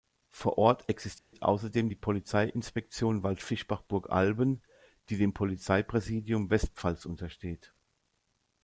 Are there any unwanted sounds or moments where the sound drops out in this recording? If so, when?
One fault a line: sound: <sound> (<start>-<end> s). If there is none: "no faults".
sound: dropout (1.2-1.3 s)